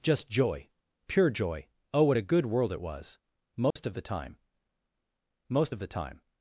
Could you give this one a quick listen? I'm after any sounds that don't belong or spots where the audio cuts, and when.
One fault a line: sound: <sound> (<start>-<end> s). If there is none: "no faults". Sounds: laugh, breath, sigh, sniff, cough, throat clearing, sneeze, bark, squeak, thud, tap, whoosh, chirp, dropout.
sound: dropout (3.7-3.8 s)